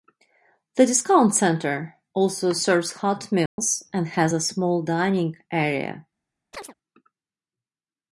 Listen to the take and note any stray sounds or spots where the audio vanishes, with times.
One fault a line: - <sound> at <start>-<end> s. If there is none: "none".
- dropout at 3.5-3.6 s
- chirp at 6.5-6.7 s